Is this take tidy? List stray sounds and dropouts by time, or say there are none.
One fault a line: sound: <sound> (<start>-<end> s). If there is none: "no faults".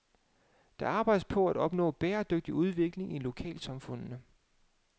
no faults